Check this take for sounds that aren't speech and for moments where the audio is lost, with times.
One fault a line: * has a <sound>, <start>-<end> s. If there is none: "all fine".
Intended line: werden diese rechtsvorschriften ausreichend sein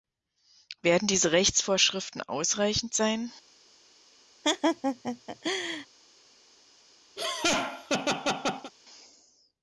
* has a laugh, 4.4-5.9 s
* has a laugh, 7.2-8.7 s